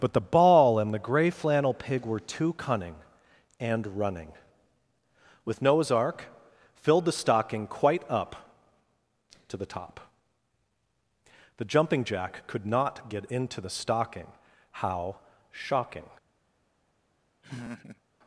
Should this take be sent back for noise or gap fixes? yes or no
yes